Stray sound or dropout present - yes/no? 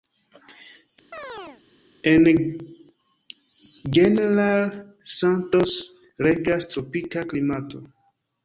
yes